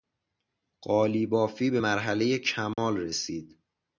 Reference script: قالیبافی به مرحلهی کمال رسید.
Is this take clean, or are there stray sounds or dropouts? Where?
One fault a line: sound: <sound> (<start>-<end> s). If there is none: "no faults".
sound: dropout (2.7-2.8 s)